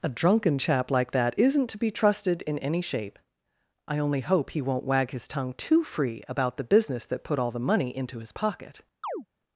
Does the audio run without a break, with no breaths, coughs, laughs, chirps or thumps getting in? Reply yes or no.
no